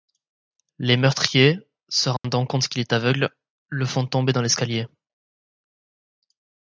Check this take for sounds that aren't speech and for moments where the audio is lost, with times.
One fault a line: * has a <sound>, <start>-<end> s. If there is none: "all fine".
* has a dropout, 2.2-2.2 s